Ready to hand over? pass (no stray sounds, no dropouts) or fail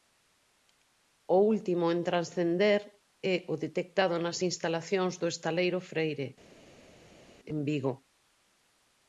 pass